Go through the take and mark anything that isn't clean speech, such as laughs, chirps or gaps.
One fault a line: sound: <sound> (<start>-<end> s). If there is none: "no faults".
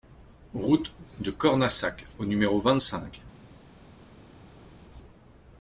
no faults